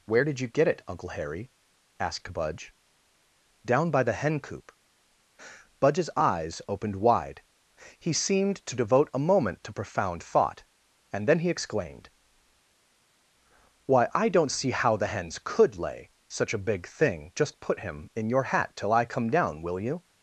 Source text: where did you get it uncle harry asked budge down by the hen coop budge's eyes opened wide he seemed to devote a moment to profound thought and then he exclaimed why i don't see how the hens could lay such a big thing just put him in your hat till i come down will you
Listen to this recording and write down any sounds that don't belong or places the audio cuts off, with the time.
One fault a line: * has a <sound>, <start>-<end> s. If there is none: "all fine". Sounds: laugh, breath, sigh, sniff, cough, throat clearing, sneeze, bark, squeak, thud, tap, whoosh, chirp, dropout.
all fine